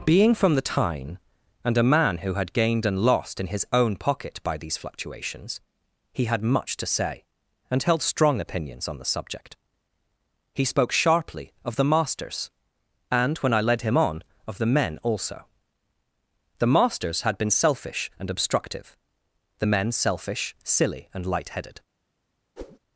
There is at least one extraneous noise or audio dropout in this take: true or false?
true